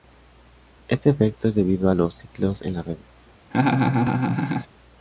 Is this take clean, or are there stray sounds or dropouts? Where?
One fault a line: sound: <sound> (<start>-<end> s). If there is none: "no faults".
sound: laugh (3.5-4.7 s)